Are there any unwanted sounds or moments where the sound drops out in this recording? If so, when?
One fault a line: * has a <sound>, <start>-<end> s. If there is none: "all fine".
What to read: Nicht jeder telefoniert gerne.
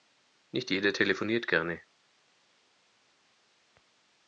all fine